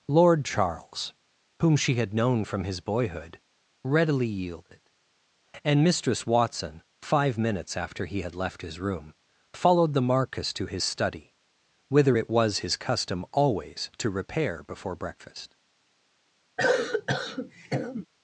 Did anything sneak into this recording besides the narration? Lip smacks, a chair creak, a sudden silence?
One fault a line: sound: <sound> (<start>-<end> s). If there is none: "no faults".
sound: cough (16.6-18.1 s)